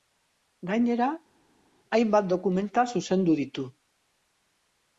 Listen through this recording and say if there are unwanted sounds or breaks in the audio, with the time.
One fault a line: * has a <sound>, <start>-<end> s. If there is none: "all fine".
all fine